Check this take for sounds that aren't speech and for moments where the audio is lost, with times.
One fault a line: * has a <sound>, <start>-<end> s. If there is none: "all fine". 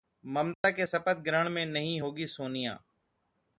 * has a dropout, 0.5-0.6 s